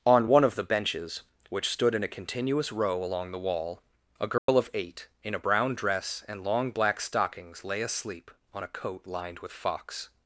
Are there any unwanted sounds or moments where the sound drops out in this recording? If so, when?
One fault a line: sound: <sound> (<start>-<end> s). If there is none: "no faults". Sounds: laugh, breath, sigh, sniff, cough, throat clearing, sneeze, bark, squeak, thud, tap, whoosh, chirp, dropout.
sound: dropout (4.4-4.5 s)